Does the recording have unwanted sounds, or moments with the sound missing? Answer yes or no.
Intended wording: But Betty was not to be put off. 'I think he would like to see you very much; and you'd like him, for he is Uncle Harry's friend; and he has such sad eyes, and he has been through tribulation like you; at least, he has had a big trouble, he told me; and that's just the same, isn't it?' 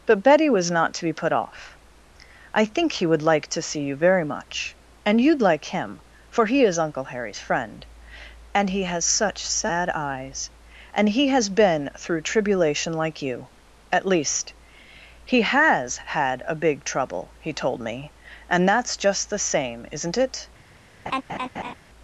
yes